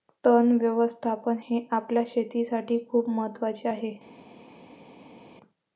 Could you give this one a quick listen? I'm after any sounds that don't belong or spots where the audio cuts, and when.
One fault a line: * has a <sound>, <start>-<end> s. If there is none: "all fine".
all fine